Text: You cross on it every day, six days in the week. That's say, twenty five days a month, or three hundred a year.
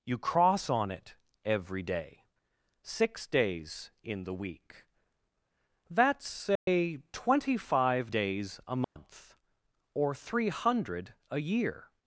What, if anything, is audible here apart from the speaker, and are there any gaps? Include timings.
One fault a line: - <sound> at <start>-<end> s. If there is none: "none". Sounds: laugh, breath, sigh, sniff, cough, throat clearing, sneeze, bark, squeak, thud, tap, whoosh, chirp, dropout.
- dropout at 6.6-6.7 s
- dropout at 8.8-9.0 s